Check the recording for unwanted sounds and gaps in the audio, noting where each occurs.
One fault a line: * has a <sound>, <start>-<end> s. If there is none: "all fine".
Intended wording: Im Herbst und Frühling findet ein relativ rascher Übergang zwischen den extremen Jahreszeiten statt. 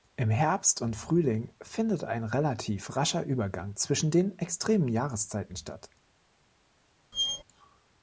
* has a squeak, 7.1-7.4 s